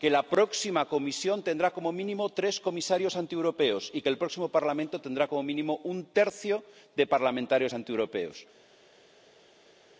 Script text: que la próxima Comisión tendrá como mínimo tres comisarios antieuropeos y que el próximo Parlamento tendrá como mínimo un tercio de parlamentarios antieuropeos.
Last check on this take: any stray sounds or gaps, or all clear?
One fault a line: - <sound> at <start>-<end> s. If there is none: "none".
none